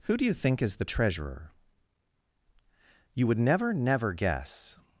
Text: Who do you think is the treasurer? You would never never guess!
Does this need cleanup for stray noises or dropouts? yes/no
no